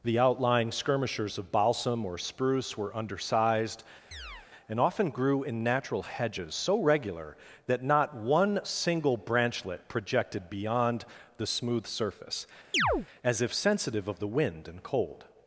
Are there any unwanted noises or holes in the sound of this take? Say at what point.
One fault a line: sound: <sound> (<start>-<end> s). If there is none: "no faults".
sound: chirp (4.1-4.5 s)
sound: chirp (12.7-13.1 s)